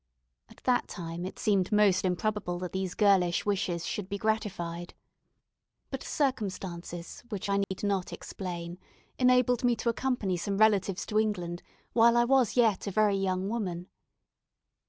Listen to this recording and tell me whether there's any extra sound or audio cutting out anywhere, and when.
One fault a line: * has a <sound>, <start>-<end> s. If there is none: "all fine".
* has a dropout, 7.6-7.7 s